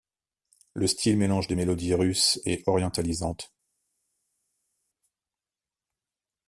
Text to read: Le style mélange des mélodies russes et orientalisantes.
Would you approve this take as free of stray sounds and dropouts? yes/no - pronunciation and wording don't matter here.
yes